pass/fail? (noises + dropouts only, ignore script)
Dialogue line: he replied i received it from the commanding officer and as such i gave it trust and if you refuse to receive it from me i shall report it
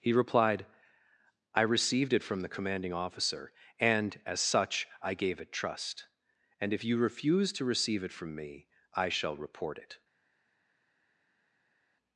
pass